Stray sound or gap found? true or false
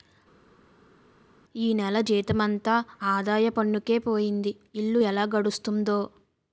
false